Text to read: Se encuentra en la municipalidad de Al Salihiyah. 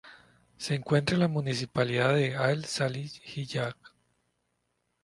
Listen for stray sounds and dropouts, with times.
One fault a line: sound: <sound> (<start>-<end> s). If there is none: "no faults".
no faults